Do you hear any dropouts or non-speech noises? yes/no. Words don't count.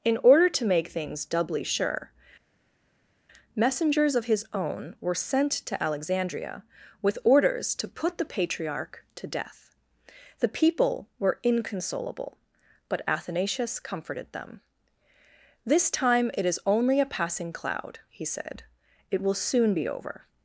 no